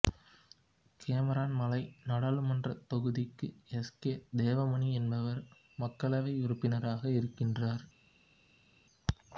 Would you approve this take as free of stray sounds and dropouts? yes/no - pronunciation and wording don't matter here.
yes